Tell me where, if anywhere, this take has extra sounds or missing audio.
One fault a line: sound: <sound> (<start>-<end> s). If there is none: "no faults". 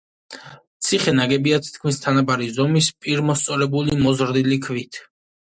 no faults